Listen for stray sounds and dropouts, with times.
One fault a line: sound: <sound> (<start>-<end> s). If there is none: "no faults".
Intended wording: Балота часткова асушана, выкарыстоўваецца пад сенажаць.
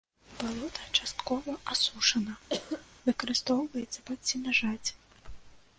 sound: cough (2.5-2.9 s)